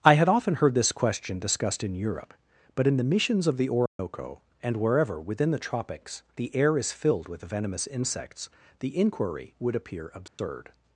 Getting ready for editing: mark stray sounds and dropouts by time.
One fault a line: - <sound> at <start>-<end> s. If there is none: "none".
- dropout at 3.9-4.0 s
- dropout at 10.3-10.4 s